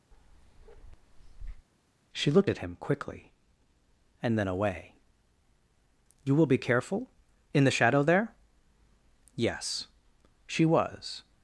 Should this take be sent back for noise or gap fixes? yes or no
yes